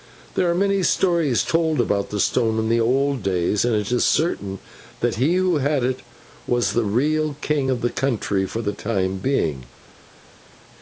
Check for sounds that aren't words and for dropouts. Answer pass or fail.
pass